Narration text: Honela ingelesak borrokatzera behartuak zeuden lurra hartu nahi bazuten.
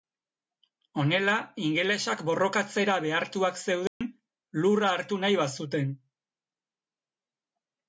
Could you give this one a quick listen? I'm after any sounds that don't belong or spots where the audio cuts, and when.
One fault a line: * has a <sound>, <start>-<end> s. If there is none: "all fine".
* has a dropout, 3.9-4.0 s